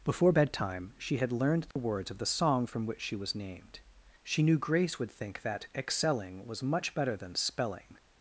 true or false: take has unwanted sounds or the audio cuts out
true